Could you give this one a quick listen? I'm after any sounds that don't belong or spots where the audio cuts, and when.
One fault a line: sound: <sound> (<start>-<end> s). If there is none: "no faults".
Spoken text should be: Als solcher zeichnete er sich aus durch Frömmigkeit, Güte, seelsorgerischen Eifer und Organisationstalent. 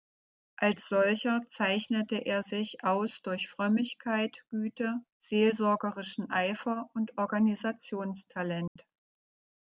sound: dropout (8.7-8.8 s)